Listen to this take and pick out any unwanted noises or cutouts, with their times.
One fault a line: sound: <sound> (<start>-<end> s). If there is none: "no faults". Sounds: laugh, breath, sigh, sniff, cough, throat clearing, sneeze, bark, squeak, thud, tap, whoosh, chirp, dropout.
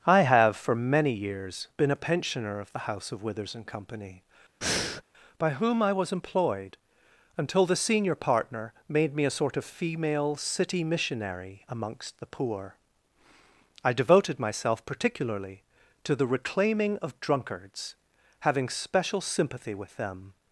sound: breath (4.6-5.0 s)